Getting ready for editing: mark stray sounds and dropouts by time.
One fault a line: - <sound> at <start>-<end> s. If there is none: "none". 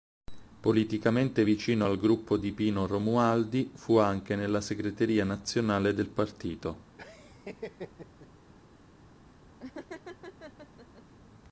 - laugh at 7.0-8.3 s
- laugh at 9.6-11.0 s